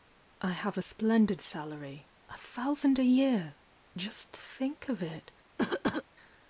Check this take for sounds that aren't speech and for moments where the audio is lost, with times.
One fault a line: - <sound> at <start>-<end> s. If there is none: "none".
- cough at 5.6-6.0 s